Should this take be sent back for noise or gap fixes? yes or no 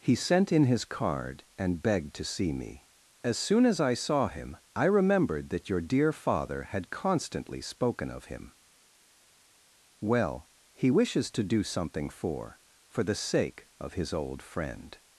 no